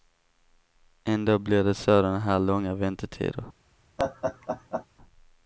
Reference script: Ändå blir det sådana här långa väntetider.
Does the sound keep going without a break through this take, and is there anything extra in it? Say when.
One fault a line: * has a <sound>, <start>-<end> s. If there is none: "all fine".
* has a laugh, 4.0-4.9 s